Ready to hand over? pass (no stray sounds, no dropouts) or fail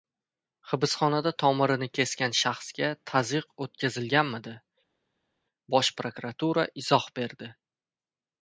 pass